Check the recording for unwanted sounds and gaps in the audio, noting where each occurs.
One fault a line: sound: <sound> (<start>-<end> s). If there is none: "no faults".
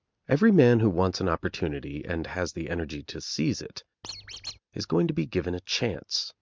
sound: squeak (4.0-4.6 s)